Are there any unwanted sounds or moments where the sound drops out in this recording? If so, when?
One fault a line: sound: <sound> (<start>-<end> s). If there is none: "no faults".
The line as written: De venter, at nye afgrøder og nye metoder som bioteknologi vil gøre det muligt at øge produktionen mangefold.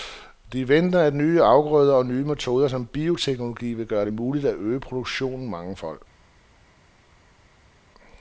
no faults